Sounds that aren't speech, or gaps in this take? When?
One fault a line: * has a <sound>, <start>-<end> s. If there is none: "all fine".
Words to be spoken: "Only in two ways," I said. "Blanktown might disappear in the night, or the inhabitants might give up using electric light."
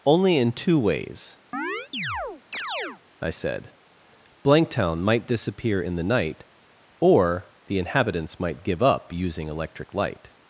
* has a chirp, 1.5-3.0 s